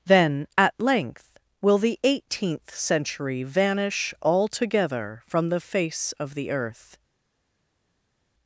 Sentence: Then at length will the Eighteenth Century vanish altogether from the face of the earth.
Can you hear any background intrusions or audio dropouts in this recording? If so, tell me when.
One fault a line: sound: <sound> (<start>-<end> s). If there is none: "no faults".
no faults